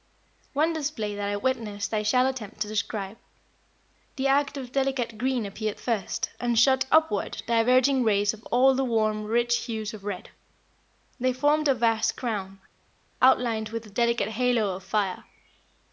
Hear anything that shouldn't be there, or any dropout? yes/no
no